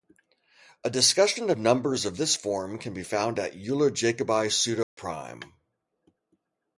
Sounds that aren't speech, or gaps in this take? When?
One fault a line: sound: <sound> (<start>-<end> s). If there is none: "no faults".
sound: dropout (4.8-5.0 s)